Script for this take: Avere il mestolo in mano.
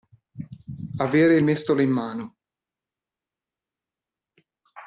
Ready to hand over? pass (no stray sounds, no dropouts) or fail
pass